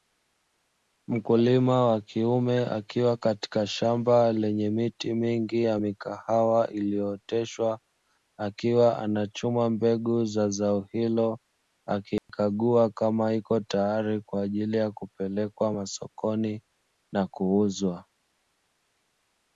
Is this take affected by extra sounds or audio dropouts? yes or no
yes